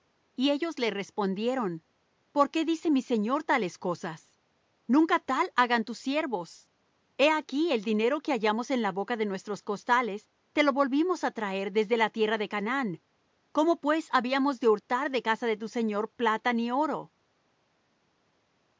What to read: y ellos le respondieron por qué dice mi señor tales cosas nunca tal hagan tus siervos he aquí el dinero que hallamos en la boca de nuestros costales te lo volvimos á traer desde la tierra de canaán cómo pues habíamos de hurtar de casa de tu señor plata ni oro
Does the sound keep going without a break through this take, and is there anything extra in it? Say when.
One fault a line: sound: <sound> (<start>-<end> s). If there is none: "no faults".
no faults